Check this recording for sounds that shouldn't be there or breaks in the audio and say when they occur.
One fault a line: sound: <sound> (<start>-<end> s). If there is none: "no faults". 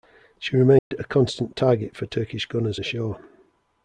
sound: dropout (0.8-0.9 s)